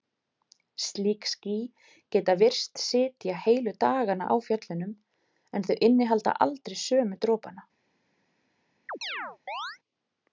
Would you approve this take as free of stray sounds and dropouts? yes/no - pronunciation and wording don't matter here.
no